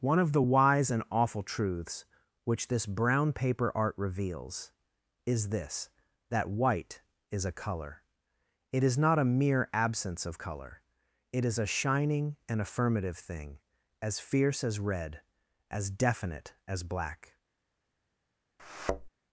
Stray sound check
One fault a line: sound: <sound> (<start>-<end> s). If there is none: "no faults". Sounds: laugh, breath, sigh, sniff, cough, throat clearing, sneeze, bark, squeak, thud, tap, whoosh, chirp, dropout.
sound: thud (18.6-19.1 s)